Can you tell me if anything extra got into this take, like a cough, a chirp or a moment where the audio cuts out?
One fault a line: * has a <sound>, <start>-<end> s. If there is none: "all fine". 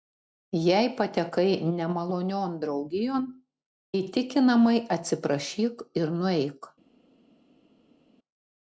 all fine